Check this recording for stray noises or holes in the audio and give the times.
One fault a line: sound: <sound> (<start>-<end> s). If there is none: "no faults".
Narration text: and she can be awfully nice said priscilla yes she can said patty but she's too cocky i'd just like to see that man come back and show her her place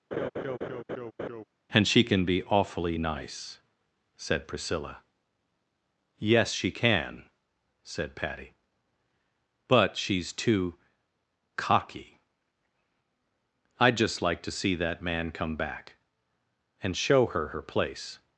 sound: laugh (0.1-1.4 s)